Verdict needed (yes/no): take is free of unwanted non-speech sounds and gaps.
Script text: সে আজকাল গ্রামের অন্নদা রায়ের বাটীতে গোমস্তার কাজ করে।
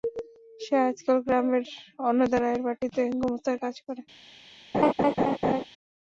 no